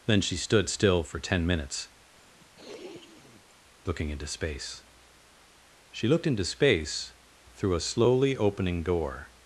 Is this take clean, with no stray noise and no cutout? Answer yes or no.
no